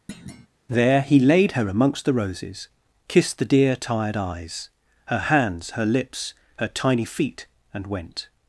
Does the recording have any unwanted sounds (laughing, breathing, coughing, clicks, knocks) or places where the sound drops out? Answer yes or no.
yes